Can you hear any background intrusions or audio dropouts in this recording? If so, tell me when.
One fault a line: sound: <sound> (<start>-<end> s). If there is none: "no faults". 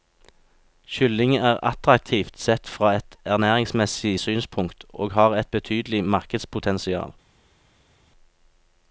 no faults